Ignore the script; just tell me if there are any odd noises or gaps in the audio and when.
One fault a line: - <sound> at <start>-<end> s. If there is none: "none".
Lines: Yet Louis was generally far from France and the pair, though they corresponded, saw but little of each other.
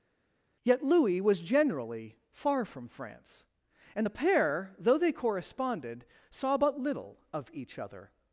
none